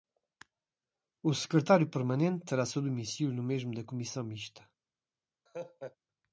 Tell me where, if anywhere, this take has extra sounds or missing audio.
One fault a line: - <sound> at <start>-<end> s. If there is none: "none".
- laugh at 5.5-6.0 s